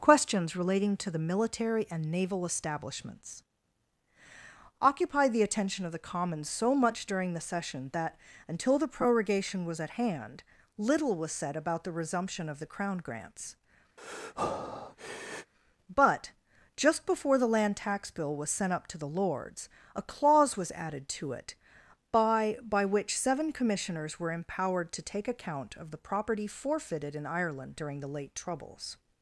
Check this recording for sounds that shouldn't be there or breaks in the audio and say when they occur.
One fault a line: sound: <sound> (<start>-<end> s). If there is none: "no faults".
sound: breath (14.0-15.5 s)